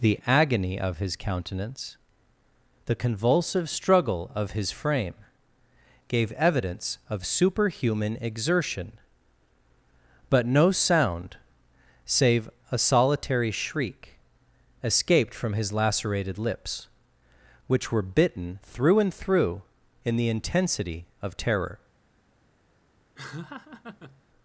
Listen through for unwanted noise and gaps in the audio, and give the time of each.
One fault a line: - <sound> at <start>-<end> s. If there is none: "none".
- laugh at 23.2-24.2 s